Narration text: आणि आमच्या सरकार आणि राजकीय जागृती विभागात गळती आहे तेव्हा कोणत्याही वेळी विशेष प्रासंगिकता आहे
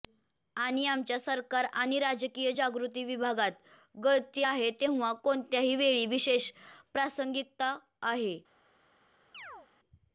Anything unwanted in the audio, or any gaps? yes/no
yes